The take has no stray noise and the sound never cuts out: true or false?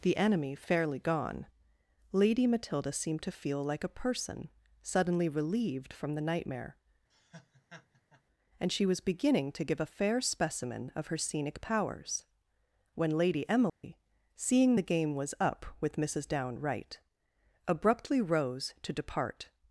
false